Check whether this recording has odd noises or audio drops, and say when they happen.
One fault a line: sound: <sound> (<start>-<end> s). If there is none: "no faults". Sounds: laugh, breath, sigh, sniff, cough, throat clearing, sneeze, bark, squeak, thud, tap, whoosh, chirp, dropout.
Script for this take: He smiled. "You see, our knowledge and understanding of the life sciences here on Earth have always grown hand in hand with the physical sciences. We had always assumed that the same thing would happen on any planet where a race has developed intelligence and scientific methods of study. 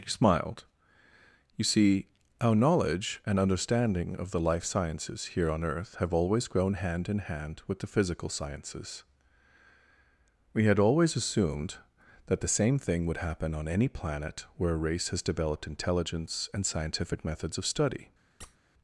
sound: squeak (18.4-18.6 s)